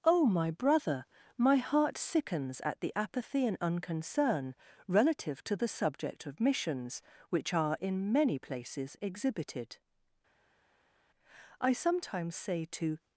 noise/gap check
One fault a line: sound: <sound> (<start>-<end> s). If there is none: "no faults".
no faults